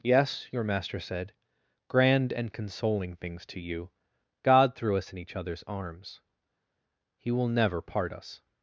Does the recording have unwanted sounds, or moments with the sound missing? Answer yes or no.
no